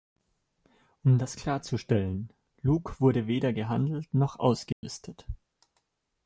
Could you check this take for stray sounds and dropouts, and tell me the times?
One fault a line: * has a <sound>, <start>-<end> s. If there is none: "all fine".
* has a dropout, 4.7-4.8 s